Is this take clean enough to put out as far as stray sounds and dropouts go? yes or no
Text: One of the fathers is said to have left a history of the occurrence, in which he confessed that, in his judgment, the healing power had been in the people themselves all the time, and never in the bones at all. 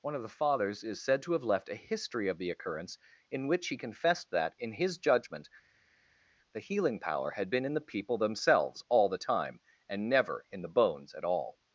yes